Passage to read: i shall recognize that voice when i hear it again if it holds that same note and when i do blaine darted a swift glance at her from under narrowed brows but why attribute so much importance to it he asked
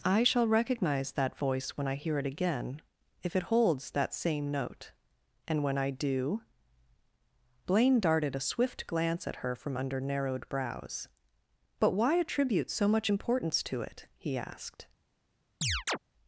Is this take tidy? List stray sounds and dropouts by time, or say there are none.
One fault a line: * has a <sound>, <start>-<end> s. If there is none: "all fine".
* has a chirp, 15.6-16.0 s